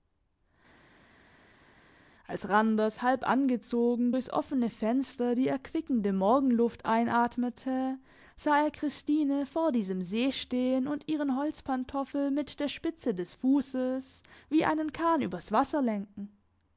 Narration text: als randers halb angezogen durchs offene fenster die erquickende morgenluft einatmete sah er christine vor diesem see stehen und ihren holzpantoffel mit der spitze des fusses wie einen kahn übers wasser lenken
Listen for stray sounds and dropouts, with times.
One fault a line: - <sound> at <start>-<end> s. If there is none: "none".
none